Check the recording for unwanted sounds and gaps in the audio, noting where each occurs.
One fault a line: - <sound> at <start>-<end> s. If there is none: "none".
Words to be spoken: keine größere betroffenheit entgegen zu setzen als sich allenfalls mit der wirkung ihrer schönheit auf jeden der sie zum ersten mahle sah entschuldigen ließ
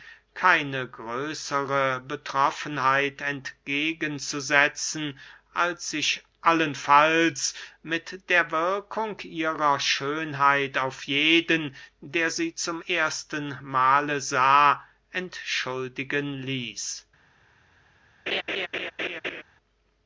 - laugh at 18.3-19.4 s